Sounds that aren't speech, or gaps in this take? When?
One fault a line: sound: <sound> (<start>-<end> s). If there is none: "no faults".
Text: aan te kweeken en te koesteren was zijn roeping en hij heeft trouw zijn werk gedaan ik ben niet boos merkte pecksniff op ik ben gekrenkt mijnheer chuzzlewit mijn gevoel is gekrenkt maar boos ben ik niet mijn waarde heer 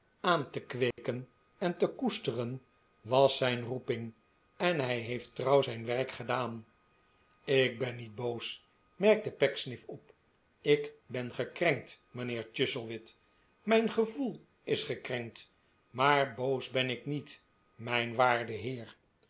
sound: dropout (0.9-1.0 s)